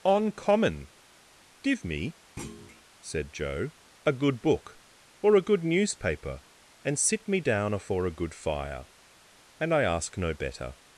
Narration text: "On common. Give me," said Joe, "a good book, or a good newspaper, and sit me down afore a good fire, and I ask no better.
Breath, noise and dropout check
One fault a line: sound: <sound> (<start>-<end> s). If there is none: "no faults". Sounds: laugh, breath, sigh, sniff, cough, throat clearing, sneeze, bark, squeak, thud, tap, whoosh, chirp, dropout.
sound: thud (2.4-2.8 s)